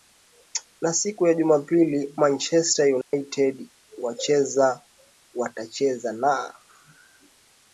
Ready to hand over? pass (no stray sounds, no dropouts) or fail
fail